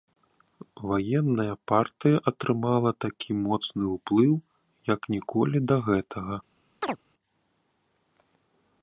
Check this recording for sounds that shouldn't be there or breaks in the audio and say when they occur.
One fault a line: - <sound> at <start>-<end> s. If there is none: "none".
- chirp at 6.8-7.0 s